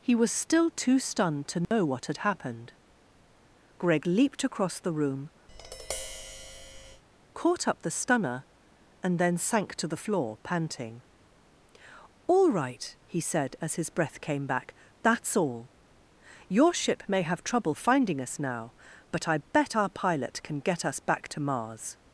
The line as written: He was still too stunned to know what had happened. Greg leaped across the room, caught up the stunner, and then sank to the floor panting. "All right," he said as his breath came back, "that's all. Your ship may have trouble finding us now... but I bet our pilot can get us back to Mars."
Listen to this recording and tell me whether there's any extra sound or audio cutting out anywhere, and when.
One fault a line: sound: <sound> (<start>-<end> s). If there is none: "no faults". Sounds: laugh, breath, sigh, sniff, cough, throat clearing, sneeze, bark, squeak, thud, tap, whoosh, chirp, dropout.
sound: dropout (1.6-1.7 s)
sound: tap (5.5-7.0 s)